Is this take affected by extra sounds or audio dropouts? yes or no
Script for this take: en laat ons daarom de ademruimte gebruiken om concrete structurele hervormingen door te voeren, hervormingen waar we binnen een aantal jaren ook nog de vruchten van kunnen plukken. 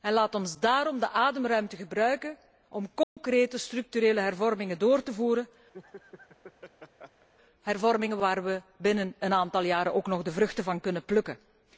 yes